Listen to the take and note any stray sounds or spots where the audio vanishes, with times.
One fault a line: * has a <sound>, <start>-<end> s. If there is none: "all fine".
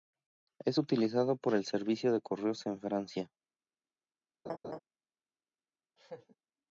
* has a laugh, 4.5-4.8 s
* has a laugh, 6.0-6.4 s